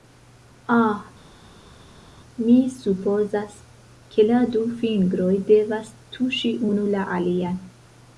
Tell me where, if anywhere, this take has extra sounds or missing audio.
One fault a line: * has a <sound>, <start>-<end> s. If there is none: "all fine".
all fine